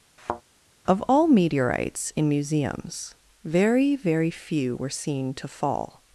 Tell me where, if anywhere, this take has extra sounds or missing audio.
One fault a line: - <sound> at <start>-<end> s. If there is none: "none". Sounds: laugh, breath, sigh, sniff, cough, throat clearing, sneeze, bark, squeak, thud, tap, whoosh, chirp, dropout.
- thud at 0.2-0.4 s